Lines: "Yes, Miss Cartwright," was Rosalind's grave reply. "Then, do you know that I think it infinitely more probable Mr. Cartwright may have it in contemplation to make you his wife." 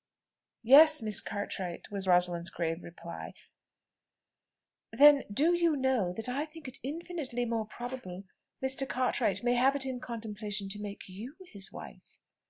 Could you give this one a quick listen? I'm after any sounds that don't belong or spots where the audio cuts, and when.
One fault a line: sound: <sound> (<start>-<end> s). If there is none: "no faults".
no faults